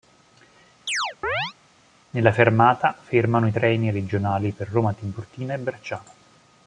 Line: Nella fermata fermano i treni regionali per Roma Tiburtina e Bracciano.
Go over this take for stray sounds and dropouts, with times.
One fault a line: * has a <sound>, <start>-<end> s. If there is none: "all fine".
* has a chirp, 0.9-1.5 s